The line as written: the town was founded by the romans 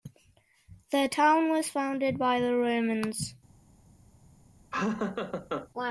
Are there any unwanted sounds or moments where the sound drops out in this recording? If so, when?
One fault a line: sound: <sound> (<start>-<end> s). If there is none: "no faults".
sound: laugh (4.7-5.7 s)